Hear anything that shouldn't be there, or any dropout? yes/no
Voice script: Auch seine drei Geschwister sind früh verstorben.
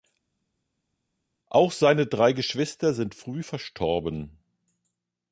no